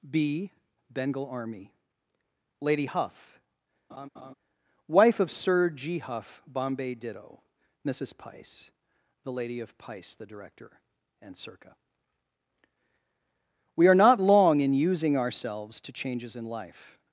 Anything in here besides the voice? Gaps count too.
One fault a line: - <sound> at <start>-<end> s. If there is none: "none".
- laugh at 3.9-4.3 s